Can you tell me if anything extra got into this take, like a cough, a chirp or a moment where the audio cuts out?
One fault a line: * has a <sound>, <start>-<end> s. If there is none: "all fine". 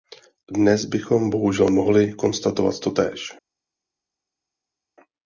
all fine